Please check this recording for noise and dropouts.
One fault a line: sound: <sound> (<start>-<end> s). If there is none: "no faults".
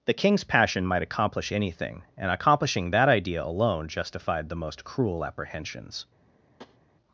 sound: tap (6.6-6.8 s)